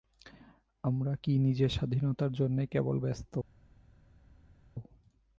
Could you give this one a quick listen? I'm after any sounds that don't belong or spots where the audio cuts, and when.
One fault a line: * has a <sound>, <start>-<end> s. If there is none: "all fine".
all fine